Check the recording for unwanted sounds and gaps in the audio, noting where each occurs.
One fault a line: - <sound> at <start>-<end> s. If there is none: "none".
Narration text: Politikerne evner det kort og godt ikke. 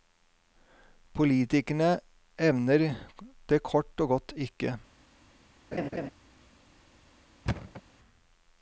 - laugh at 5.7-6.1 s
- thud at 7.5-7.8 s